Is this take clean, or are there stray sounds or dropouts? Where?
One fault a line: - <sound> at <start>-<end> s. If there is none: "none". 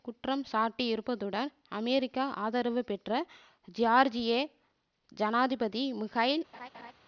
- laugh at 6.5-6.9 s